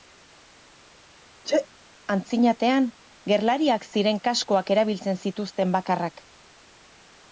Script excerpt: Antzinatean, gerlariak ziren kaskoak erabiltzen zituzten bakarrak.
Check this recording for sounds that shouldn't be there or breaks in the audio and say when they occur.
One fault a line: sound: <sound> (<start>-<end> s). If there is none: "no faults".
sound: sneeze (1.4-1.7 s)